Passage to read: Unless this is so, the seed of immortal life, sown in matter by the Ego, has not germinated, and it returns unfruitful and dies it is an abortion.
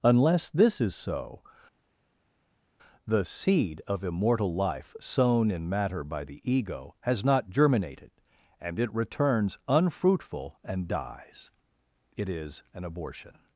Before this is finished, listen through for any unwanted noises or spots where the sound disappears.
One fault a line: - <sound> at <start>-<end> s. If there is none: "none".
none